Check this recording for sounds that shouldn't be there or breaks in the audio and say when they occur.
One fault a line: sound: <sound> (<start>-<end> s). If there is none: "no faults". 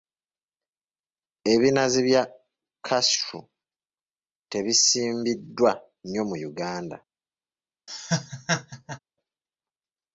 sound: laugh (7.9-9.0 s)